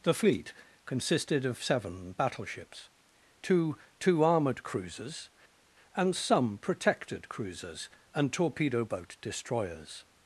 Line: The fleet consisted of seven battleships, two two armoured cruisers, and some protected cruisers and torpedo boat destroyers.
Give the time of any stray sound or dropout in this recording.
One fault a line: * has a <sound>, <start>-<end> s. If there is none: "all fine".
all fine